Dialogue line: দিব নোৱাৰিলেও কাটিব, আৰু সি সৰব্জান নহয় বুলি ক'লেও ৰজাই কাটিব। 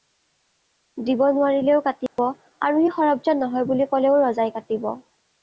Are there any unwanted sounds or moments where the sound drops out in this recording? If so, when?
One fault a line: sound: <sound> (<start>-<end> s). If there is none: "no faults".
sound: dropout (2.1-2.2 s)